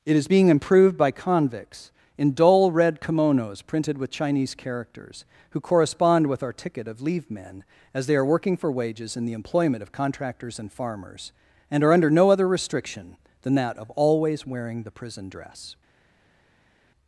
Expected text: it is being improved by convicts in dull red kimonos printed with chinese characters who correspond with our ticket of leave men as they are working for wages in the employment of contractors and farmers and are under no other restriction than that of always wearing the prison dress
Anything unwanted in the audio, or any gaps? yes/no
no